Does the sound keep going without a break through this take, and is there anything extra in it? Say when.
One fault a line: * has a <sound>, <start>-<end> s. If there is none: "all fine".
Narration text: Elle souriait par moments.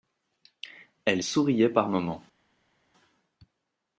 all fine